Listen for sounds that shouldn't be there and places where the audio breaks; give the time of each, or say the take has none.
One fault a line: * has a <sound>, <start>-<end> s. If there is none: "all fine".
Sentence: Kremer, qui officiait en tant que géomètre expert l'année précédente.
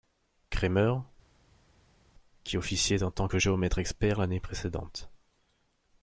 all fine